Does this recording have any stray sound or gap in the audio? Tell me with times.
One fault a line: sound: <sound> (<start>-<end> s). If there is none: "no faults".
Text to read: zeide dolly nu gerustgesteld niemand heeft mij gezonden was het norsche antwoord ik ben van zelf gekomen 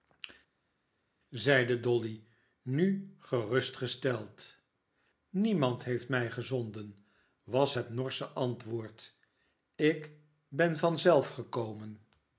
no faults